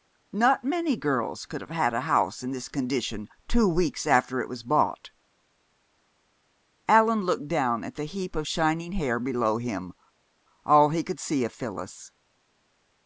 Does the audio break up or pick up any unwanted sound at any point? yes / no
no